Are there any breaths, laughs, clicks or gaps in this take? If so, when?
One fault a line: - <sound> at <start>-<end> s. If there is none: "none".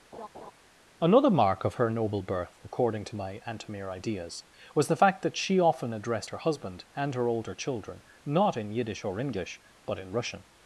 - laugh at 0.1-0.5 s